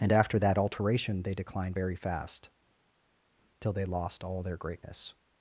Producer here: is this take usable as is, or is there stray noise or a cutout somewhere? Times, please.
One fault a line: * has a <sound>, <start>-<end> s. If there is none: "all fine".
all fine